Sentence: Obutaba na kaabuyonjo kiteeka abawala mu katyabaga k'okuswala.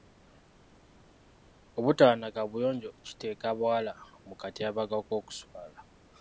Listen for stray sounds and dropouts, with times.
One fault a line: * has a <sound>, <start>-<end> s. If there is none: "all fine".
all fine